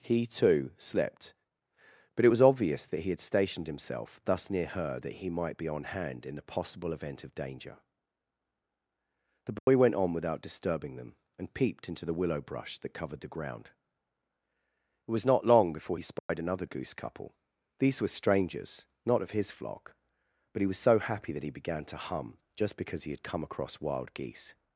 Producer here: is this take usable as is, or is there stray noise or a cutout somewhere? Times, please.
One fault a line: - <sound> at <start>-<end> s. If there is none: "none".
- dropout at 9.6-9.7 s
- dropout at 16.2-16.3 s